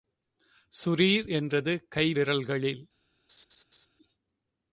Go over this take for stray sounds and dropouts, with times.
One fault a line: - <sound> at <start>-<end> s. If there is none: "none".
- laugh at 3.3-3.9 s